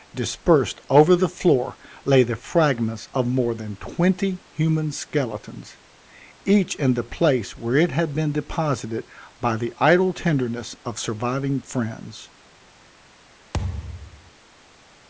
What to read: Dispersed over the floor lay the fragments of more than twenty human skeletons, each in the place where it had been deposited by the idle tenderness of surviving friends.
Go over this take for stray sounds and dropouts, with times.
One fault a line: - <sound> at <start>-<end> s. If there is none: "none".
- thud at 13.5-14.3 s